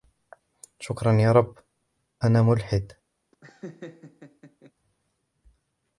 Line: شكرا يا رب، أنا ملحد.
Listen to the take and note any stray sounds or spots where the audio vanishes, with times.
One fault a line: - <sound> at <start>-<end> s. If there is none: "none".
- laugh at 3.3-4.7 s